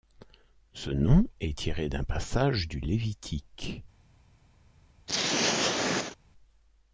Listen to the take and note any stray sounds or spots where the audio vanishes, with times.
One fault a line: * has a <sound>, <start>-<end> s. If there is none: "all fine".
* has a throat clearing, 5.1-6.2 s